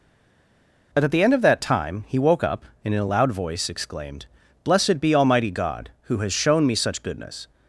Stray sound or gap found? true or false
false